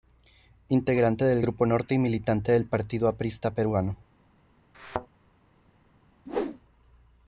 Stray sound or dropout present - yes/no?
yes